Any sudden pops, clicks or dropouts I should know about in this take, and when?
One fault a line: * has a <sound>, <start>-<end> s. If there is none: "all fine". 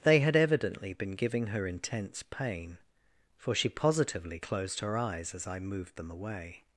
all fine